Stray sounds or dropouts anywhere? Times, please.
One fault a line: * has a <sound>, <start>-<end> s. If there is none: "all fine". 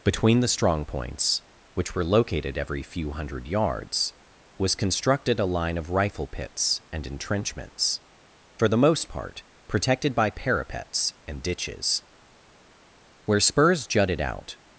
all fine